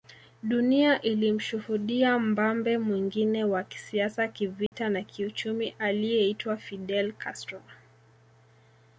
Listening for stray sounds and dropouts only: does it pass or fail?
fail